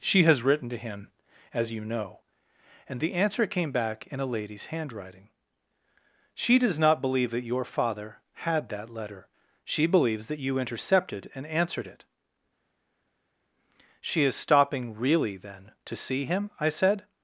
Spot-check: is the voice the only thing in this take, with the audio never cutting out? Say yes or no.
yes